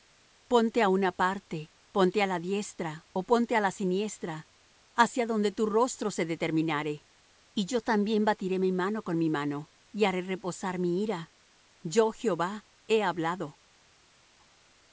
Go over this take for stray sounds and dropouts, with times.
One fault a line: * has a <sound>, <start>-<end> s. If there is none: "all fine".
all fine